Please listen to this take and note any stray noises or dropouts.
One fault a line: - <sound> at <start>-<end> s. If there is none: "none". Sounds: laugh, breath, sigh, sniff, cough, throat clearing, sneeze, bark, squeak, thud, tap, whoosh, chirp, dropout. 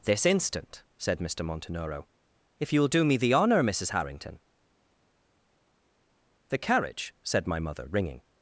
none